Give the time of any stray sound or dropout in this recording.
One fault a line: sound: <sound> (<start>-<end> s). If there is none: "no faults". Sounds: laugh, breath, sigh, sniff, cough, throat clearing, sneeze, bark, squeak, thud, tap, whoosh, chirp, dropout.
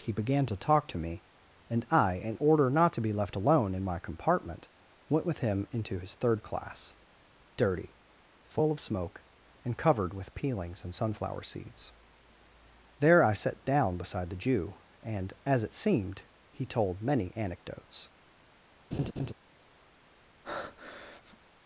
sound: laugh (18.9-19.3 s)
sound: breath (20.4-21.4 s)